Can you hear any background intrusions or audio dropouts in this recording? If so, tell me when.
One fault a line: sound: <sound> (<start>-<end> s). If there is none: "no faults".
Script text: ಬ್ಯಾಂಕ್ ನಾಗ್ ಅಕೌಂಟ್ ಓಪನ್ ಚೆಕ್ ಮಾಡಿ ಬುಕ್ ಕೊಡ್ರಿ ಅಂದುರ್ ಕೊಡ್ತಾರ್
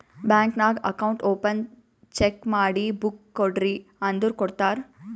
no faults